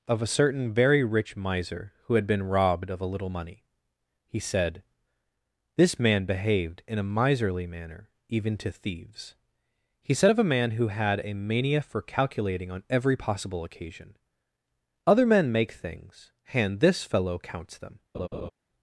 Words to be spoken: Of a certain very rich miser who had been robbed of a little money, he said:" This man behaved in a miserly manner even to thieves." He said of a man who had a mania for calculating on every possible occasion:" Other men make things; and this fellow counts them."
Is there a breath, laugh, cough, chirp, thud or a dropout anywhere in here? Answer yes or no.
yes